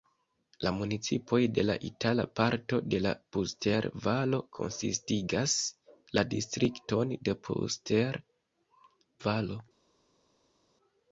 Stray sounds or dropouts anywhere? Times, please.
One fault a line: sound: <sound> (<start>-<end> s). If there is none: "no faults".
no faults